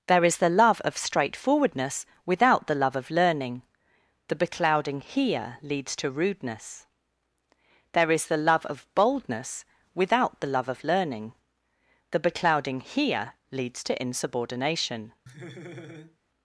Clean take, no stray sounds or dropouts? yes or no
no